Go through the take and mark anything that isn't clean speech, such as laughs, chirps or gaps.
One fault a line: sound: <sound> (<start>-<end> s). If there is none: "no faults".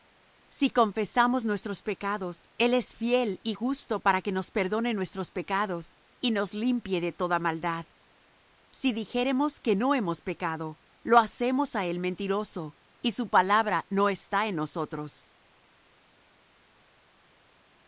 no faults